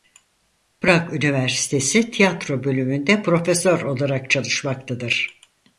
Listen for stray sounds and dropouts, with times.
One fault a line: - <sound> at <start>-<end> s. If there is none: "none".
none